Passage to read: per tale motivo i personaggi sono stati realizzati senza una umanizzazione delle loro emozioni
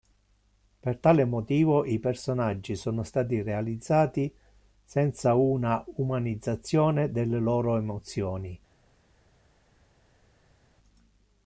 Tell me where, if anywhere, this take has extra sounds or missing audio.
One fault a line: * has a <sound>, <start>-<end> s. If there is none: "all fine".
all fine